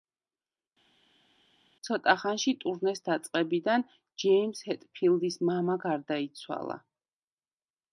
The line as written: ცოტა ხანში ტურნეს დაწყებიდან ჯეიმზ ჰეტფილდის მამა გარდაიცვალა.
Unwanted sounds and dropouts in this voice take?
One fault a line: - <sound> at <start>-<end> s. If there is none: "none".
none